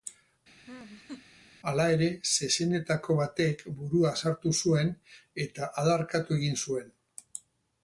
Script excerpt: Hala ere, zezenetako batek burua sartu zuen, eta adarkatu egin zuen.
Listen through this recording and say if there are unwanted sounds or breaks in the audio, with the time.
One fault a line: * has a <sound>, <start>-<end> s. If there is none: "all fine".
* has a laugh, 0.7-1.3 s